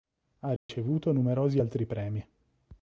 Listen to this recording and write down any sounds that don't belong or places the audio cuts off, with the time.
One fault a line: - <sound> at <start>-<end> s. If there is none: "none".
- dropout at 0.6-0.7 s